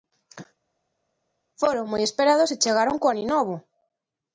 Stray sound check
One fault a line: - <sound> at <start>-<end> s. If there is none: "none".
none